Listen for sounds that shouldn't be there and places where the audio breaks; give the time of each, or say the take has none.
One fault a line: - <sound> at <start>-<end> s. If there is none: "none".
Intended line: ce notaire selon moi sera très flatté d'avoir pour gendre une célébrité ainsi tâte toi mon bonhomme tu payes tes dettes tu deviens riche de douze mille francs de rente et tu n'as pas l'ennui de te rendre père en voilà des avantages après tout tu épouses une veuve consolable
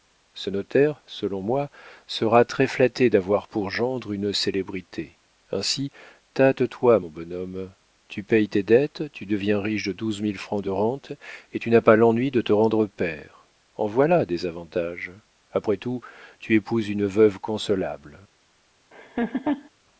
- laugh at 18.9-19.7 s